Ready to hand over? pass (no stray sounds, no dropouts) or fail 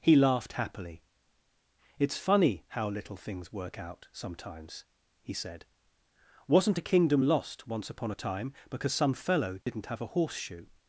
fail